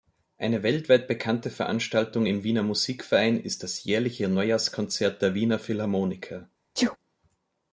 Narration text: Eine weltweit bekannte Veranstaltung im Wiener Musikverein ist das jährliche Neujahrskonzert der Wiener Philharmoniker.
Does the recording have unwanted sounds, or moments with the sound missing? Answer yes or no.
yes